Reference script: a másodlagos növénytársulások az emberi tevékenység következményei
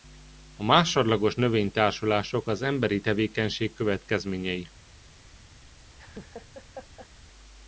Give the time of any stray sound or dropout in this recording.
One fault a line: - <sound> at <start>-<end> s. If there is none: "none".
- laugh at 6.0-7.1 s